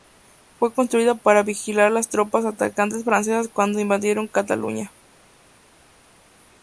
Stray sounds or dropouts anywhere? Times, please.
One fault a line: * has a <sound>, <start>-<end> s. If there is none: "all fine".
all fine